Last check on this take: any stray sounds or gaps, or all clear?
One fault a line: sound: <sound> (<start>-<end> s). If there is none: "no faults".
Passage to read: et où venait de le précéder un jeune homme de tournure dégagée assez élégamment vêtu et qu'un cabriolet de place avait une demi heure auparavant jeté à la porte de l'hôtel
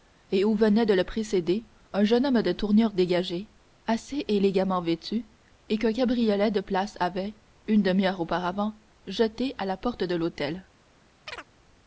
sound: chirp (11.3-11.5 s)